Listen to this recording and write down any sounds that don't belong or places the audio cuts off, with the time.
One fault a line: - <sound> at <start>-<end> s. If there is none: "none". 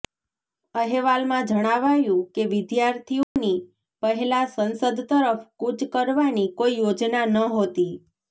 - dropout at 3.2-3.4 s